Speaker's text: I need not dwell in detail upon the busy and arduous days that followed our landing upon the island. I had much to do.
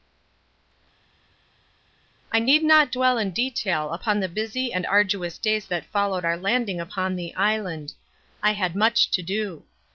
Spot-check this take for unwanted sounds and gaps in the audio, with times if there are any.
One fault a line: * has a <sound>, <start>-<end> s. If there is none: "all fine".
all fine